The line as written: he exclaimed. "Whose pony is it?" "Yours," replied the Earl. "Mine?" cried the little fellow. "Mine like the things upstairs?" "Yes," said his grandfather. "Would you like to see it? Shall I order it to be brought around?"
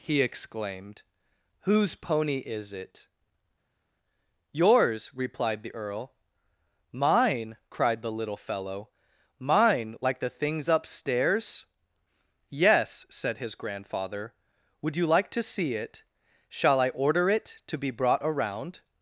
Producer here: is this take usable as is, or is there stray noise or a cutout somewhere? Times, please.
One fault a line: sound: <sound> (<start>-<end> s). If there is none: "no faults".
no faults